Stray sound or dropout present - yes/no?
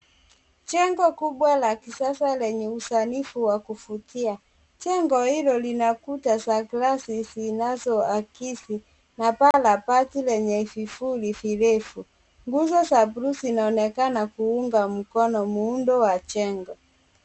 yes